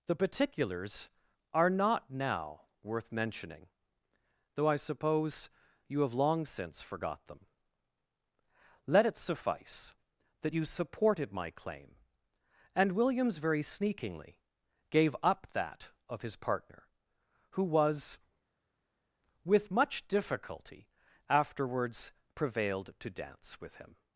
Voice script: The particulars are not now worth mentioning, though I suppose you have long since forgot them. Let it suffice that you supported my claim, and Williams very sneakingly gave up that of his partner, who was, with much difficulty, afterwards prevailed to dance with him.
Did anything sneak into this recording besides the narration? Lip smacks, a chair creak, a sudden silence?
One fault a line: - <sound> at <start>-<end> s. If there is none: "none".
none